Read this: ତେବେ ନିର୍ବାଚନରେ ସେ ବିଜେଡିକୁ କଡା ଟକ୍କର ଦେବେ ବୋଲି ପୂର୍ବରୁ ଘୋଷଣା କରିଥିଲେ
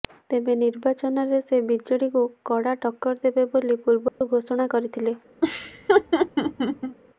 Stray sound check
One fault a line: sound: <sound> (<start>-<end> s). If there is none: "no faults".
sound: dropout (4.1-4.2 s)
sound: laugh (5.4-7.0 s)